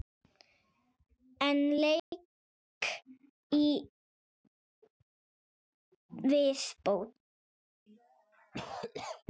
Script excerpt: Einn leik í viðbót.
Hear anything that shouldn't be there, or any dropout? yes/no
yes